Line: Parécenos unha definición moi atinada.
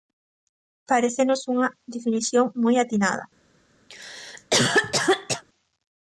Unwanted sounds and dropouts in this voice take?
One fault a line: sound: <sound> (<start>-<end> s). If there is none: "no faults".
sound: cough (3.9-5.4 s)